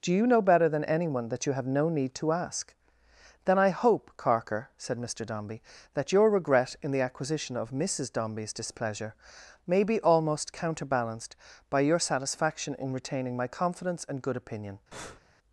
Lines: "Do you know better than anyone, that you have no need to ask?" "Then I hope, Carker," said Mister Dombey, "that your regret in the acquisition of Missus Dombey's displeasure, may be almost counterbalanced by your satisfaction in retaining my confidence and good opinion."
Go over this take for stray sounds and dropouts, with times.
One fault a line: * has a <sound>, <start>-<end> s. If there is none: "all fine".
* has a breath, 14.9-15.2 s